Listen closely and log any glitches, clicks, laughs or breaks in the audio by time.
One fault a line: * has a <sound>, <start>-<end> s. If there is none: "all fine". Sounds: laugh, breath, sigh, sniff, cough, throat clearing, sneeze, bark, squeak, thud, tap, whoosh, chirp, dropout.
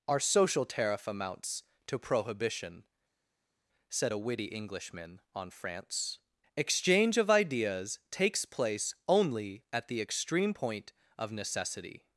all fine